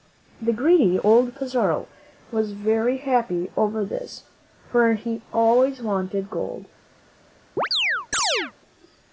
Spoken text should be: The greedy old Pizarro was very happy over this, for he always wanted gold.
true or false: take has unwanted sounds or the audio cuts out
true